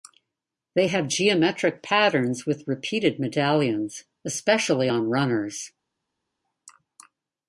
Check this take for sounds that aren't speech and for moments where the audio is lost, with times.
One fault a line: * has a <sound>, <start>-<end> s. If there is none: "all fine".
all fine